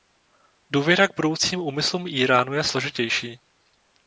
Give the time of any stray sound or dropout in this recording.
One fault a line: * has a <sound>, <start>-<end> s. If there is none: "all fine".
all fine